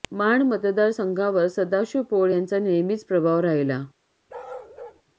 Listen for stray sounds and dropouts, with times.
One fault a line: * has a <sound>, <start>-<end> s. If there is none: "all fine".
* has a bark, 4.3-5.0 s